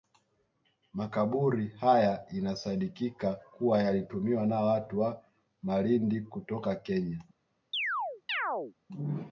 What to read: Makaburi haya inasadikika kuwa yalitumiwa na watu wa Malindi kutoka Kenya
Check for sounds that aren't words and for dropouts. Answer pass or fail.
fail